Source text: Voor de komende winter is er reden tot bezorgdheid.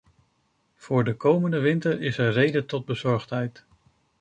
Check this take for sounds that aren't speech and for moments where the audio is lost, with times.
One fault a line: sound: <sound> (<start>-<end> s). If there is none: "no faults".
no faults